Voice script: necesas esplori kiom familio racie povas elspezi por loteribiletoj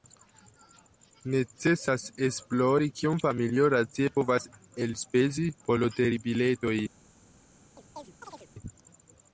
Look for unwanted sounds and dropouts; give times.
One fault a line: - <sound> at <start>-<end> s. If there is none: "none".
- chirp at 7.8-8.5 s